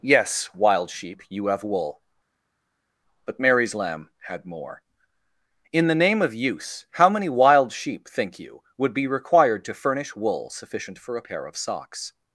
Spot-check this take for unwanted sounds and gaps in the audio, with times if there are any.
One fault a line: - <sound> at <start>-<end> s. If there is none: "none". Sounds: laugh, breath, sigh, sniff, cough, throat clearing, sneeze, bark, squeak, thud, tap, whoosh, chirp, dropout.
none